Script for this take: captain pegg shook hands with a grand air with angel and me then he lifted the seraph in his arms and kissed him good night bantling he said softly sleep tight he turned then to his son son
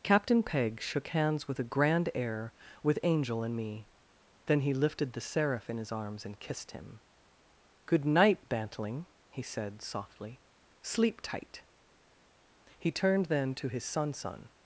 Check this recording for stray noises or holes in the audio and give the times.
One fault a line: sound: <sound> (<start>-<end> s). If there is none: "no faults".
no faults